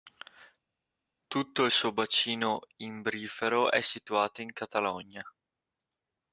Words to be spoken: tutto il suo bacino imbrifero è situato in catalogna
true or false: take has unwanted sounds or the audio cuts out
false